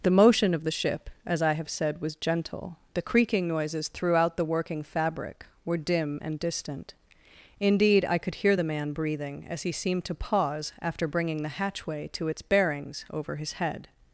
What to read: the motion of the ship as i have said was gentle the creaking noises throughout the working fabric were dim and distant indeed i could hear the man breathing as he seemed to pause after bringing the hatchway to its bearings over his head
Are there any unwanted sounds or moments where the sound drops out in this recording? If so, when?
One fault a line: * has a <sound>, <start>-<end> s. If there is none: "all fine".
all fine